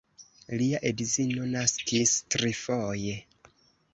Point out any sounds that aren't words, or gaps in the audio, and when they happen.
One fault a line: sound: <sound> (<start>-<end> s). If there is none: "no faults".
no faults